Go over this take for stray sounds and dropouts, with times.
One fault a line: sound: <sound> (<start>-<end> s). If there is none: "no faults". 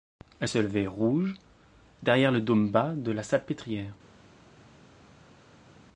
no faults